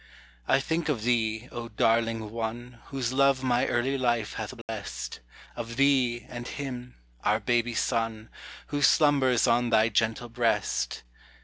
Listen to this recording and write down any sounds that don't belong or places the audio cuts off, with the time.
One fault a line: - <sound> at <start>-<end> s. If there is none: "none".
- dropout at 4.6-4.7 s